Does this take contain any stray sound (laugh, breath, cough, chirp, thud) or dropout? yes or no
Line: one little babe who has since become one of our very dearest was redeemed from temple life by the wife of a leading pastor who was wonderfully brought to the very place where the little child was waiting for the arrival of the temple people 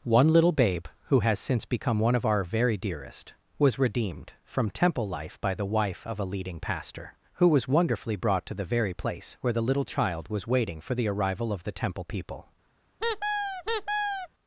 yes